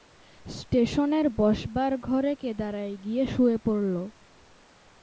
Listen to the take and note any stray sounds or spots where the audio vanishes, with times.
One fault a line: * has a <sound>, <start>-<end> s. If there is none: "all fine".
all fine